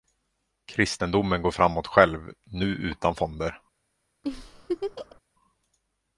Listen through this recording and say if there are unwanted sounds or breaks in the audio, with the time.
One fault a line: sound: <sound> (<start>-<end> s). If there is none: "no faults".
sound: laugh (4.2-5.2 s)